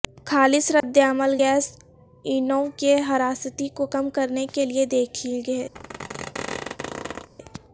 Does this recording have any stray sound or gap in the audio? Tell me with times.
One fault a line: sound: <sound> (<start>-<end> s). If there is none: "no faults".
sound: dropout (0.8-0.8 s)
sound: squeak (5.7-7.3 s)